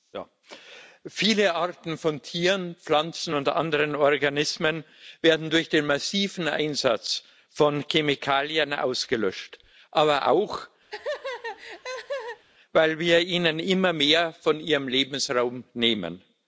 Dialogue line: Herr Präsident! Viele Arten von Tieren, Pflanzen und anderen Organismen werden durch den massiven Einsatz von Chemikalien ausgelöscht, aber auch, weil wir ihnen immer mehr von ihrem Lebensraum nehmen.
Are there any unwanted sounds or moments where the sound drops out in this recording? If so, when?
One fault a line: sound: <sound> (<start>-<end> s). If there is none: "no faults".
sound: laugh (10.9-12.4 s)